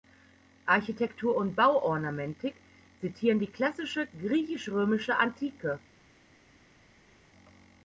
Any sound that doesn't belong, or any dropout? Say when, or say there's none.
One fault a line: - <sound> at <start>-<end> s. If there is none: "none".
none